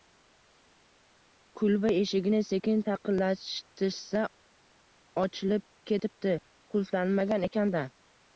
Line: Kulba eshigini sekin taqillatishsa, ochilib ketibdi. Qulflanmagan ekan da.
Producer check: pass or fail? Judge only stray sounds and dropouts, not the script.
pass